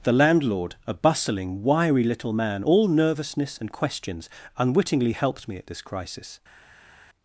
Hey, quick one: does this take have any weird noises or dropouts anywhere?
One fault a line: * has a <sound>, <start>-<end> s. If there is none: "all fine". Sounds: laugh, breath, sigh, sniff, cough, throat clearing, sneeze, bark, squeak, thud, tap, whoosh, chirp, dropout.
all fine